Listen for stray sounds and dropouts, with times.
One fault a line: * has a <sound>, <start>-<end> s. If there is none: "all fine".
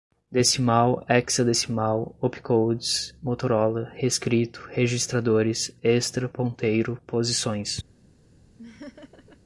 * has a laugh, 8.6-9.4 s